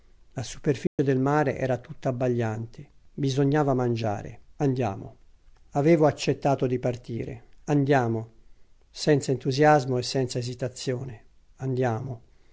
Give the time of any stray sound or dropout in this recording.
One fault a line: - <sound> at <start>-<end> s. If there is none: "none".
- dropout at 0.9-1.0 s